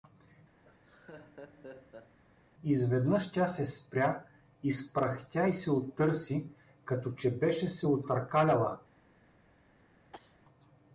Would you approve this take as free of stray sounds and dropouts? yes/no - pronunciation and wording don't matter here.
no